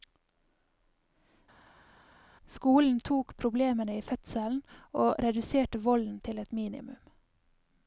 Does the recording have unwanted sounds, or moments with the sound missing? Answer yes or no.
no